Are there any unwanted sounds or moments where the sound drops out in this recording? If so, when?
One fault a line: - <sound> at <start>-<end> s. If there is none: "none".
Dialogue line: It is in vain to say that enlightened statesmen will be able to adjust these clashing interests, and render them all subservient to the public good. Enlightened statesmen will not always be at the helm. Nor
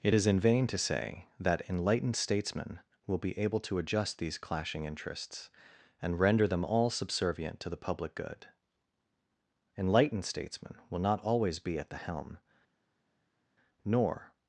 none